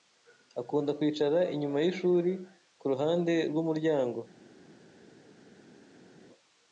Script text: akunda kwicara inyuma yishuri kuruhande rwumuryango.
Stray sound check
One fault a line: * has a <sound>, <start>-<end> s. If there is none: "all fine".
all fine